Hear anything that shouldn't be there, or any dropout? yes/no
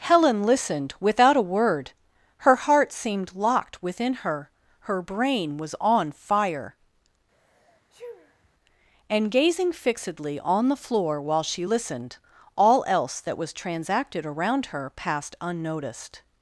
yes